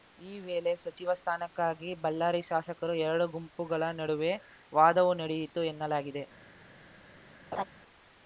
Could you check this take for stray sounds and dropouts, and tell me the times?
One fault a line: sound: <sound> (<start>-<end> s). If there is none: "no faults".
sound: laugh (7.5-7.6 s)